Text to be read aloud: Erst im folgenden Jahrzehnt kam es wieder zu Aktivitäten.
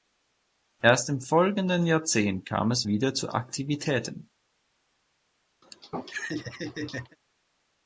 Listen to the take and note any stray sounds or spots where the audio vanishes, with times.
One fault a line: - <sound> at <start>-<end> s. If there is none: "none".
- laugh at 5.6-7.2 s